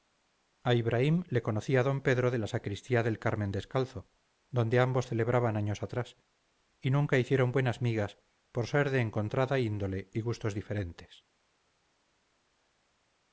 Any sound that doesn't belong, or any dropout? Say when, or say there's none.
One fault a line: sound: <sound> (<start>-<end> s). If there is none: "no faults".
no faults